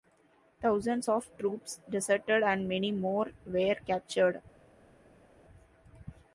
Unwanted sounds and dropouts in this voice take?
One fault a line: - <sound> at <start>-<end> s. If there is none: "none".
none